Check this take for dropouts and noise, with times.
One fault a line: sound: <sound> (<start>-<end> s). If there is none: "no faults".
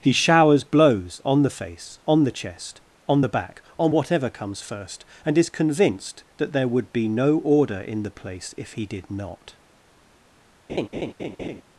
sound: laugh (10.7-11.6 s)